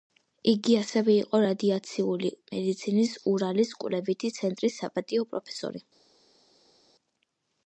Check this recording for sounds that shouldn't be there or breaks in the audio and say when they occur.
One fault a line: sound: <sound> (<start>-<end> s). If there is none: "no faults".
no faults